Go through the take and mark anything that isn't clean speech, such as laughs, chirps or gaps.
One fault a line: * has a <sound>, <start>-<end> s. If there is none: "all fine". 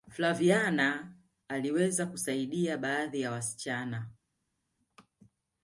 all fine